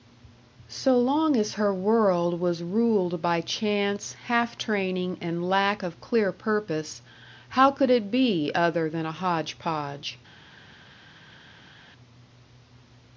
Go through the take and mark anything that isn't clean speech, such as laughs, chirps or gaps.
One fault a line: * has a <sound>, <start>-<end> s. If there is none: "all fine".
all fine